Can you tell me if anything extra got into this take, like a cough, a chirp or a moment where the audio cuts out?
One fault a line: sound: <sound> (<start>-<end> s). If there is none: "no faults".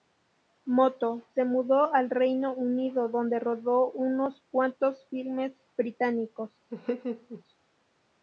sound: laugh (6.7-7.4 s)